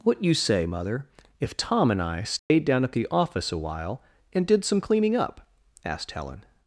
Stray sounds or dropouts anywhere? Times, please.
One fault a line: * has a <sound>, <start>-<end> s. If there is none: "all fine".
* has a dropout, 2.4-2.5 s